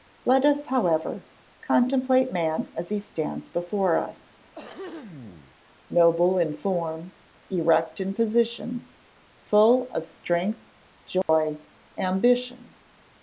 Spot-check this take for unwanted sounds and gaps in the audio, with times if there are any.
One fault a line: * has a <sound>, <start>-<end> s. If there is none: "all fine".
* has a throat clearing, 4.5-5.6 s
* has a dropout, 11.2-11.3 s